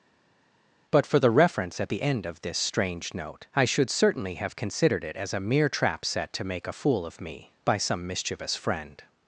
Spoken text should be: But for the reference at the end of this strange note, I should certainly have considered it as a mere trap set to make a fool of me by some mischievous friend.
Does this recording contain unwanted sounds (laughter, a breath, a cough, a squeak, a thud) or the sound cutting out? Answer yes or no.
no